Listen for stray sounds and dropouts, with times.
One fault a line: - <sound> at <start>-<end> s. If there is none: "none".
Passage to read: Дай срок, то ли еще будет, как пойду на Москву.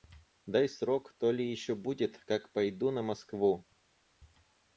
none